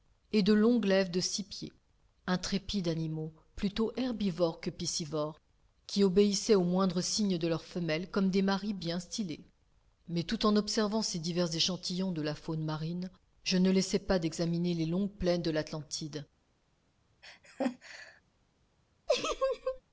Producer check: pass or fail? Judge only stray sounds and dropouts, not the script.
fail